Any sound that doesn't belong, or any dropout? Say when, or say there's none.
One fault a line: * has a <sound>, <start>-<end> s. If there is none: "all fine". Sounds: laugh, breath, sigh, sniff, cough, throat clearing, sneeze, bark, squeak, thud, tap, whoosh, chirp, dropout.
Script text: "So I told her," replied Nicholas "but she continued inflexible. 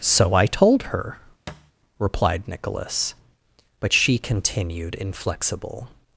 * has a thud, 1.5-1.7 s